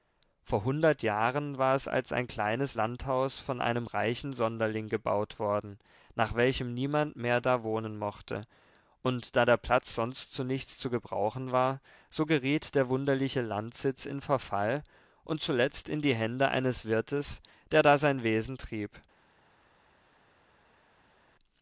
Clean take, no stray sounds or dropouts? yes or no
yes